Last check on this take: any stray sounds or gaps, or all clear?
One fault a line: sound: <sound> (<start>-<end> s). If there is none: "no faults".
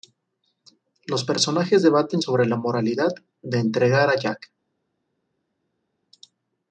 no faults